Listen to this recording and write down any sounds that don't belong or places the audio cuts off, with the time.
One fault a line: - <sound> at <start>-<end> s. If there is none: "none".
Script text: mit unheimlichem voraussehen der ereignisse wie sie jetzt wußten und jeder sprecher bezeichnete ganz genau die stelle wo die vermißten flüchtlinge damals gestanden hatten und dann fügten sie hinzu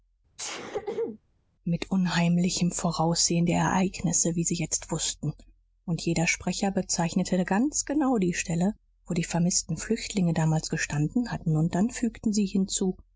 - sneeze at 0.4-1.2 s